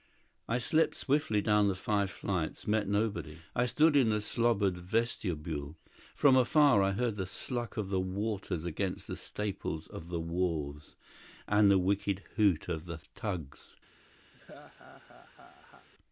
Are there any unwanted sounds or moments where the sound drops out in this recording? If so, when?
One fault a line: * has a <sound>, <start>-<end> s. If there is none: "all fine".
* has a laugh, 14.3-15.9 s